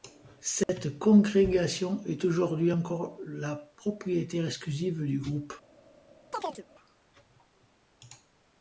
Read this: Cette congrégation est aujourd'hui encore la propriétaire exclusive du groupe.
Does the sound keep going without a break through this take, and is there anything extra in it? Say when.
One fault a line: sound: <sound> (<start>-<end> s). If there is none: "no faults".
sound: dropout (0.6-0.7 s)
sound: chirp (6.3-6.7 s)